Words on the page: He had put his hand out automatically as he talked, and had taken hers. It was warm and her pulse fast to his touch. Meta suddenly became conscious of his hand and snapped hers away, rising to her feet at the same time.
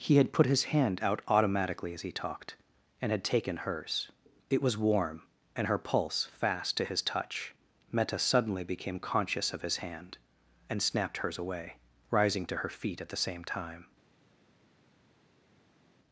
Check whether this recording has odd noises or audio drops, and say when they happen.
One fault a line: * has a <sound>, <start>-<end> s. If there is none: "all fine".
all fine